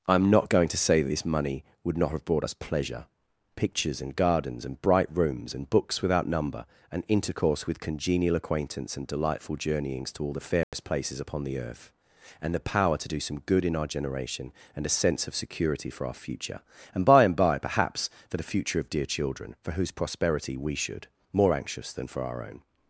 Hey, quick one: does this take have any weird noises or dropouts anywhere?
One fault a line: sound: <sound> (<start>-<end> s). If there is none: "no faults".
sound: dropout (10.6-10.7 s)